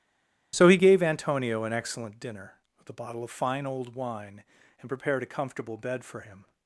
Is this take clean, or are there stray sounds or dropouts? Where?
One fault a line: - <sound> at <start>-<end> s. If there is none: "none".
none